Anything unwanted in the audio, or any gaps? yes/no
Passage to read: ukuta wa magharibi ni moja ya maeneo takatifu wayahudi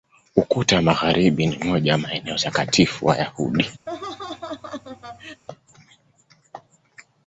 yes